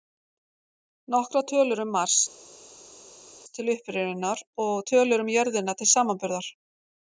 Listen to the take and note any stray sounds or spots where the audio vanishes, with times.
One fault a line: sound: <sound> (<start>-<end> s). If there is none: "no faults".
no faults